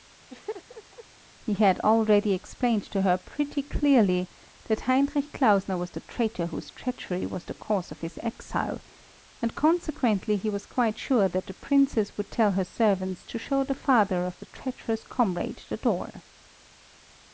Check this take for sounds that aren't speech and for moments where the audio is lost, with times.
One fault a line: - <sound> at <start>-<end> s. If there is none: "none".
- laugh at 0.3-1.0 s